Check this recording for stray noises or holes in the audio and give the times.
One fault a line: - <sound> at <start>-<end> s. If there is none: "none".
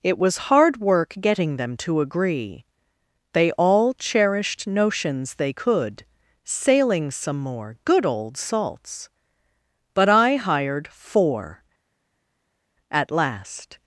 none